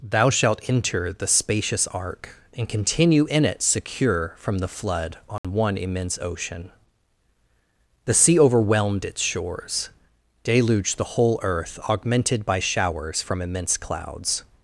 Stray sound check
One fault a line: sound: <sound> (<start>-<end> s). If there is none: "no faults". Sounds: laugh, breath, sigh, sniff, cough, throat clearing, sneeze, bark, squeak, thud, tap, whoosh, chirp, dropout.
sound: dropout (5.4-5.4 s)